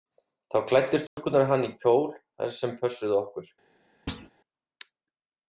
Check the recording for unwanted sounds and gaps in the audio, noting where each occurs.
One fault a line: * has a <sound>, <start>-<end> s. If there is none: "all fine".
* has a dropout, 1.1-1.2 s
* has a thud, 4.1-4.3 s